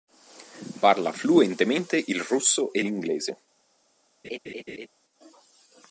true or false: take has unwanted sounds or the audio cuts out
true